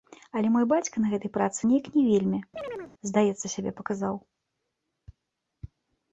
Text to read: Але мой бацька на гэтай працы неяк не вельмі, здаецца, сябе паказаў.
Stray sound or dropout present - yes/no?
yes